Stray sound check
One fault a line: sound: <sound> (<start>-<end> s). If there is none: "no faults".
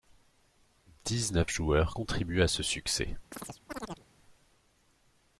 sound: chirp (3.3-4.1 s)